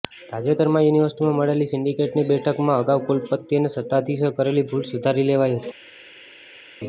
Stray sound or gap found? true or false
false